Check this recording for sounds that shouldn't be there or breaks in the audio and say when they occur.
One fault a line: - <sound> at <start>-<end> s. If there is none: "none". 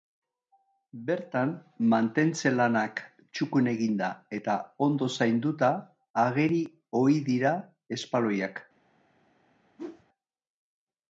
- whoosh at 9.8-10.0 s